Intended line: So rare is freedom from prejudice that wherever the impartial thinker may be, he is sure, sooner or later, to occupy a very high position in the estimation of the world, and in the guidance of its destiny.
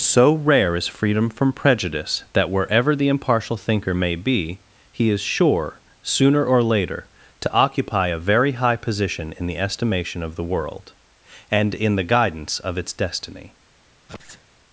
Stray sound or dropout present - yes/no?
yes